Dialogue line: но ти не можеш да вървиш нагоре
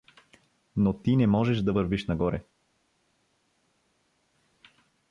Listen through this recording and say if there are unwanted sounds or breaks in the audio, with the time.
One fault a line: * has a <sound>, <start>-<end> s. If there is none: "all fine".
all fine